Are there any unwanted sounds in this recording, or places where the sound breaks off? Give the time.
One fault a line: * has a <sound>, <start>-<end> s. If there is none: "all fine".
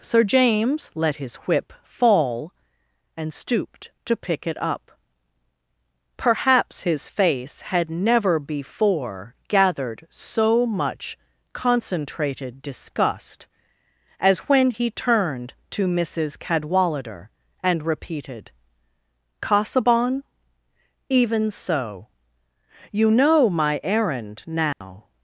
* has a dropout, 24.7-24.8 s